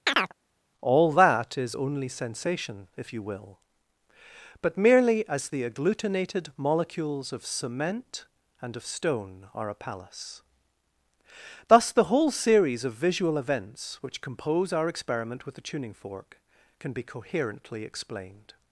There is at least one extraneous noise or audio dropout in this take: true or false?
true